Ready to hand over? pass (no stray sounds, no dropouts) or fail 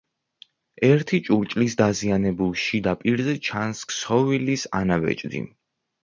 pass